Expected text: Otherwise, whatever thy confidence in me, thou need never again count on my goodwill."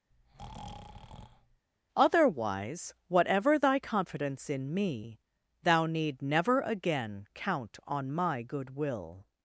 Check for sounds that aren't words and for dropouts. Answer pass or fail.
fail